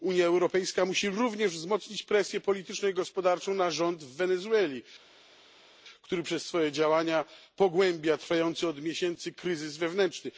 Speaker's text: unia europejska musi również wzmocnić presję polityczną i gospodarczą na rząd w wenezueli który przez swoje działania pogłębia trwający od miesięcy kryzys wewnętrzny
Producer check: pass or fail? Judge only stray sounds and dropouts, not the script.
pass